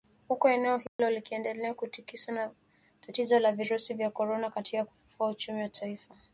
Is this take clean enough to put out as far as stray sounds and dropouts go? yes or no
no